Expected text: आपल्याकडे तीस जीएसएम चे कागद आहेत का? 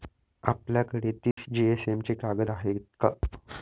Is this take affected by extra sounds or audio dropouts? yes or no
yes